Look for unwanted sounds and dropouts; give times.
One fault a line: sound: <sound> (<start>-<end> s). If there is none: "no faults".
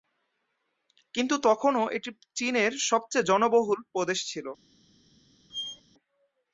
sound: squeak (5.5-5.8 s)